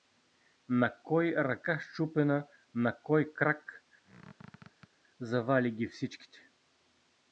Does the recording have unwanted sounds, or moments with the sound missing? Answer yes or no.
yes